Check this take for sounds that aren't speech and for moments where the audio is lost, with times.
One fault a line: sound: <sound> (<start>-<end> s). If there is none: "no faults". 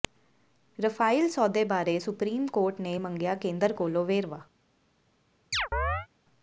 sound: chirp (5.5-6.1 s)